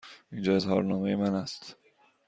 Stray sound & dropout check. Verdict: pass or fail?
pass